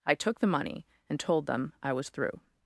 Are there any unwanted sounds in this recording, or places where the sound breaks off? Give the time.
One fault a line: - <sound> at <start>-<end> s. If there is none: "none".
none